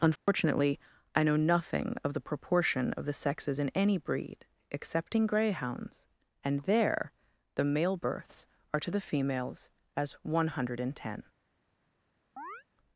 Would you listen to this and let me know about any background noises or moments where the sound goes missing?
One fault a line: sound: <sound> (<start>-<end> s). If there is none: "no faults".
sound: dropout (0.2-0.3 s)
sound: chirp (12.4-12.6 s)